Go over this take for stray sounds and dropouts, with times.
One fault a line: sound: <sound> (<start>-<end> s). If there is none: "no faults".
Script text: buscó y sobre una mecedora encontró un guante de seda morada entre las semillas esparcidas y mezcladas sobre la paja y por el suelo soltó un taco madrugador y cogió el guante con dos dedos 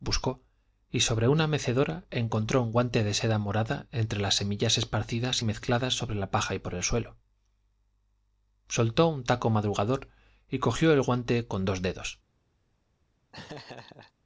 sound: laugh (13.3-14.1 s)